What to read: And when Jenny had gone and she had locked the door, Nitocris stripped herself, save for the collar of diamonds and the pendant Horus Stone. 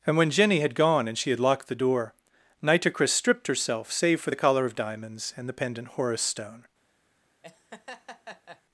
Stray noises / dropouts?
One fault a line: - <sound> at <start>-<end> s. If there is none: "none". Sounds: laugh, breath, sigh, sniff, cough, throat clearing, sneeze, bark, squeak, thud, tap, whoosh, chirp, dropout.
- laugh at 7.4-8.6 s